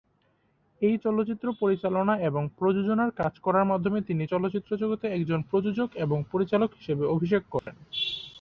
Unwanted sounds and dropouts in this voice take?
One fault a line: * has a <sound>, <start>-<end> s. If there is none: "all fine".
* has a dropout, 7.6-7.7 s